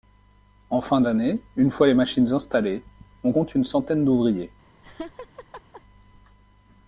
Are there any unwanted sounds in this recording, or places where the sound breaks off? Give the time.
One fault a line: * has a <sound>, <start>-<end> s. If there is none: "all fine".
* has a laugh, 4.8-5.8 s